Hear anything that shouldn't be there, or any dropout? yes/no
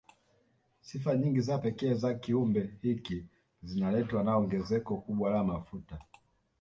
no